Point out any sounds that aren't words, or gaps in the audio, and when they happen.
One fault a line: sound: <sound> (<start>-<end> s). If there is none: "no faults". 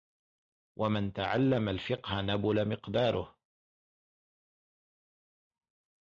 no faults